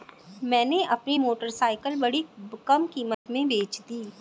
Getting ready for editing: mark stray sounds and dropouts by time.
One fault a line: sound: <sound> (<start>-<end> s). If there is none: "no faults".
sound: dropout (3.1-3.3 s)